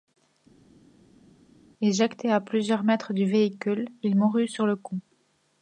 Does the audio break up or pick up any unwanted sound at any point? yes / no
no